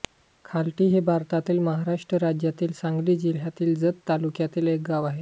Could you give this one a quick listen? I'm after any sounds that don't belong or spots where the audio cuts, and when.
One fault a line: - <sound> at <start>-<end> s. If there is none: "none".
none